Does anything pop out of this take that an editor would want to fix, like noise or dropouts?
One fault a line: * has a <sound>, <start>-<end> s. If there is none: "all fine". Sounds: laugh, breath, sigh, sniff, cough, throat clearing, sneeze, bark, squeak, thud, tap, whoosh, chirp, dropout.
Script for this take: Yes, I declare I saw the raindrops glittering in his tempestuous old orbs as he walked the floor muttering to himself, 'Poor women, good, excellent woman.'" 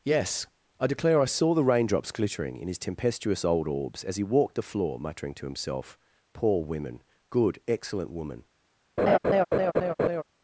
* has a laugh, 9.0-10.2 s